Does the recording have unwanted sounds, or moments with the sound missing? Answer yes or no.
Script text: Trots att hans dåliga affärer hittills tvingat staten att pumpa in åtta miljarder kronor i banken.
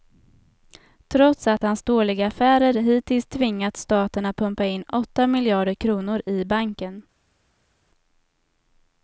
no